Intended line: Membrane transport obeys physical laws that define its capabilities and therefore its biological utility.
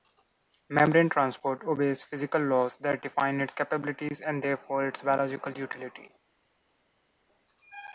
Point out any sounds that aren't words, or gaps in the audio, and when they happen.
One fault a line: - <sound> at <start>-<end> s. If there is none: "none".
none